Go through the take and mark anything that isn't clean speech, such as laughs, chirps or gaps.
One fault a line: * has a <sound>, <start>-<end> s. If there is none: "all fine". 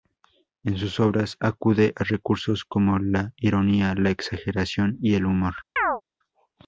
* has a chirp, 5.8-6.0 s